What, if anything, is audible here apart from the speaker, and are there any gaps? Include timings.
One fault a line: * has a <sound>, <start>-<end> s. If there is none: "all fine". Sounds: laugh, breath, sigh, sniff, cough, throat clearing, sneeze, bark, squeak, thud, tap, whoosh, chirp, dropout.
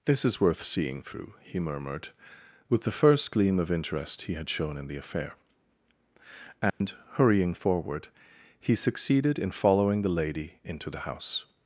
* has a dropout, 6.7-6.8 s